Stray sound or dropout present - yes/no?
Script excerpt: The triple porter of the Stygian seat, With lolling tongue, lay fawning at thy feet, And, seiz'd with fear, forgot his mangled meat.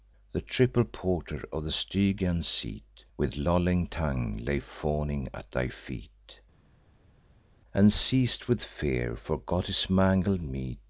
no